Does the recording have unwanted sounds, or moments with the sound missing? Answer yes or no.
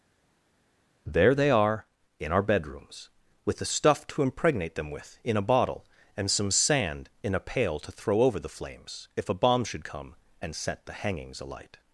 no